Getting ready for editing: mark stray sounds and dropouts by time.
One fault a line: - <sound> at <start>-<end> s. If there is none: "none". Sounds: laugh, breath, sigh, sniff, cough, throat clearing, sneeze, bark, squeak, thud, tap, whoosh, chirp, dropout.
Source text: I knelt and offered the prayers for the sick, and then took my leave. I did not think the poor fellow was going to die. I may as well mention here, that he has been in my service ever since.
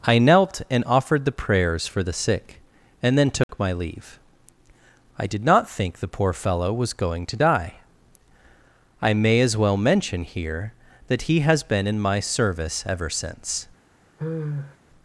- dropout at 3.4-3.5 s
- sigh at 14.2-14.8 s